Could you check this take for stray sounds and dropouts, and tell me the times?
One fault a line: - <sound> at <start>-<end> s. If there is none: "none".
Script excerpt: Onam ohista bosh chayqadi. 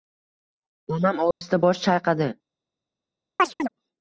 - dropout at 1.3-1.4 s
- chirp at 3.4-3.7 s